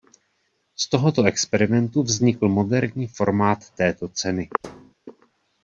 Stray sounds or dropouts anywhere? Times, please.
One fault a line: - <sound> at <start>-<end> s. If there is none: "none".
- thud at 4.6-4.9 s